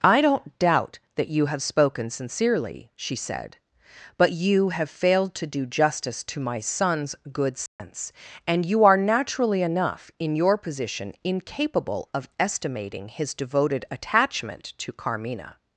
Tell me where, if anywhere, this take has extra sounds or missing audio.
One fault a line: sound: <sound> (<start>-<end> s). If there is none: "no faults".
sound: dropout (7.7-7.8 s)